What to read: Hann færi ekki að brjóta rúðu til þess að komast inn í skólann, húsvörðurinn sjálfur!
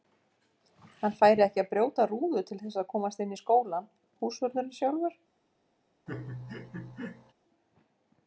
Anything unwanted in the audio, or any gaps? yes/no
yes